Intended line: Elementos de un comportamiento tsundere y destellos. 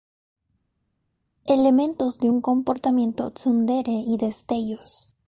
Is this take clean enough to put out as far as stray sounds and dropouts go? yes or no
yes